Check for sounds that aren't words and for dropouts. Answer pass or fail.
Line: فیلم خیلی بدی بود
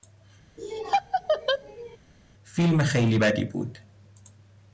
fail